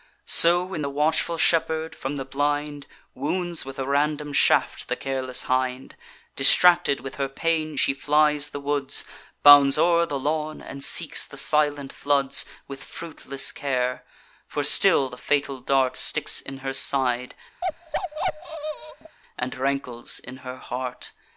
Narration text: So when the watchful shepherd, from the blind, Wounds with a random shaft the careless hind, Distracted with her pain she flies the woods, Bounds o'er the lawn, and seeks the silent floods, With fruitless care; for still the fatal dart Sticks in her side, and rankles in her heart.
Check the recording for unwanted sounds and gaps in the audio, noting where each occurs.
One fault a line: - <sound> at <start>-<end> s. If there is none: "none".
- bark at 17.6-19.2 s